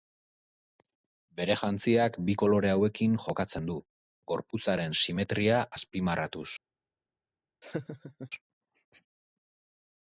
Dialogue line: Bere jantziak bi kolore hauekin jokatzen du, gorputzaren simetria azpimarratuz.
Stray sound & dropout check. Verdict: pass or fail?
fail